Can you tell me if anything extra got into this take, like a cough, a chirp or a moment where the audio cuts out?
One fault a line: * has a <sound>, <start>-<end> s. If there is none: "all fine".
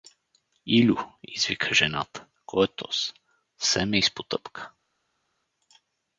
all fine